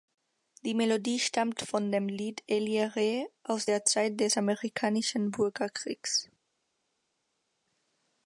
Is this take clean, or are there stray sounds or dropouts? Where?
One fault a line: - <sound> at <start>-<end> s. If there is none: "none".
none